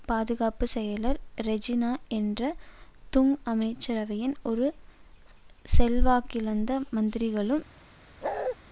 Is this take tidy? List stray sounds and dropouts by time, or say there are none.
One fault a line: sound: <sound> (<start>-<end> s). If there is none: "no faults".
sound: bark (8.2-8.6 s)